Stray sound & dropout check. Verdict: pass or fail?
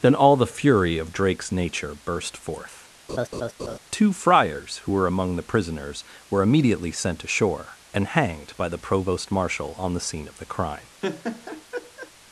fail